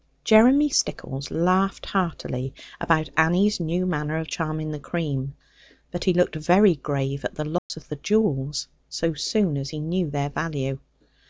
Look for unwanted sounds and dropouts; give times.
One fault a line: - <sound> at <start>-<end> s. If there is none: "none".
- dropout at 7.6-7.7 s